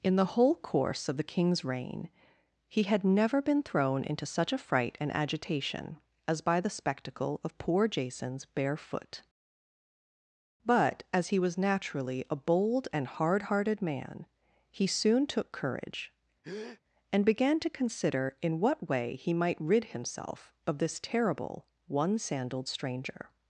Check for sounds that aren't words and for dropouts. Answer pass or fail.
fail